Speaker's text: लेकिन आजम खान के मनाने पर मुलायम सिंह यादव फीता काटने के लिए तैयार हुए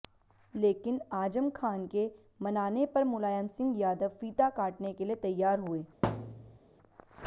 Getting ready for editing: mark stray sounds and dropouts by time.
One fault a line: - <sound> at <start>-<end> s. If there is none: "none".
- thud at 6.0-6.6 s